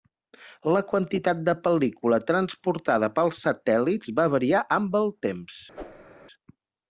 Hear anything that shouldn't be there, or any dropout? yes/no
yes